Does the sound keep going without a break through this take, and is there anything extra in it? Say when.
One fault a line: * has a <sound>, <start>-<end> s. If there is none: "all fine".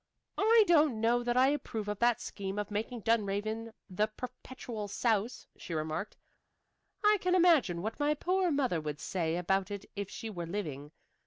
all fine